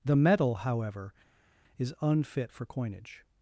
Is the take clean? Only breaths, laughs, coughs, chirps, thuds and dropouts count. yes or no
yes